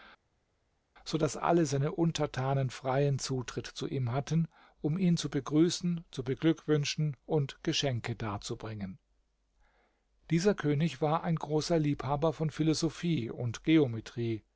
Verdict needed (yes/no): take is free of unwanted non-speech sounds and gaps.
yes